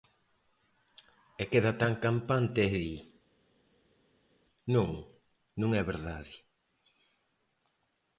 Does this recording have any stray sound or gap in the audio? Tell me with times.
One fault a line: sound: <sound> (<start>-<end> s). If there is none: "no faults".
no faults